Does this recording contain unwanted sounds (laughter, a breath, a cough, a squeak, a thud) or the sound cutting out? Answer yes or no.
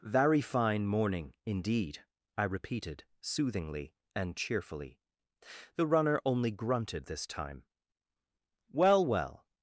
no